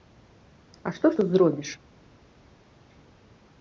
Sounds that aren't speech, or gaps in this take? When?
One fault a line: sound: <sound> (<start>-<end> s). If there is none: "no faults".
no faults